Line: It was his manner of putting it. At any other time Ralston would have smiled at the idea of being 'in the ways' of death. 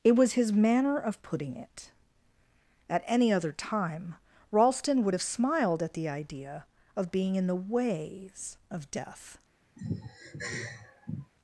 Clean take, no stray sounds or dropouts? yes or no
no